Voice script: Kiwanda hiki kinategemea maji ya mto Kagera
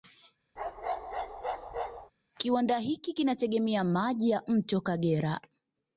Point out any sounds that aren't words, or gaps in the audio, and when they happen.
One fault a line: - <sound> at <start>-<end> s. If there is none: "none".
- bark at 0.6-2.1 s